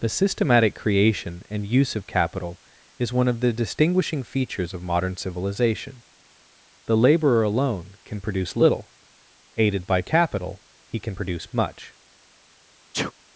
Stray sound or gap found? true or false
true